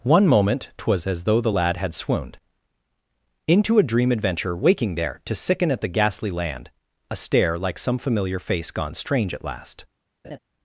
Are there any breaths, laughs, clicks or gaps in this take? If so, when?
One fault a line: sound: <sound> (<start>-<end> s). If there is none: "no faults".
sound: laugh (10.2-10.4 s)